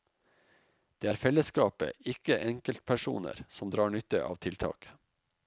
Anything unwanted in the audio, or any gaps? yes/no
no